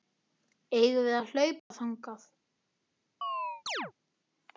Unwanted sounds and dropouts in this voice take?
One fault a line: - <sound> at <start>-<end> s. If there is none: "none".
- dropout at 1.6-1.7 s
- chirp at 3.2-3.9 s